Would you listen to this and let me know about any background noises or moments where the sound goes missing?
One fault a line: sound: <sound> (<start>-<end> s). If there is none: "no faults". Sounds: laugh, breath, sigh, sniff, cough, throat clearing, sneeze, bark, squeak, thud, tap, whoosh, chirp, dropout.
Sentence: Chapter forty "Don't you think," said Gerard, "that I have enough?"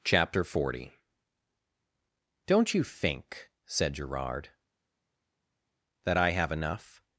no faults